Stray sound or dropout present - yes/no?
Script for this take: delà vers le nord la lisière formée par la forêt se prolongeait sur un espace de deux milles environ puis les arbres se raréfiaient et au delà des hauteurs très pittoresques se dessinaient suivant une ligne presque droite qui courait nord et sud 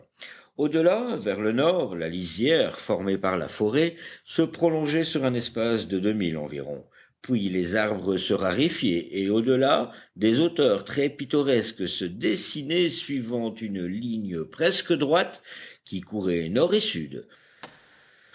yes